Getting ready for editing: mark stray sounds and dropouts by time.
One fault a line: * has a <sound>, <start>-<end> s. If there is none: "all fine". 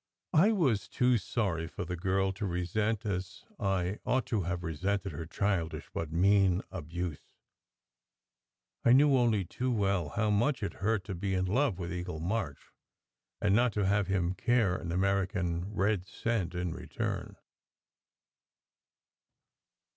all fine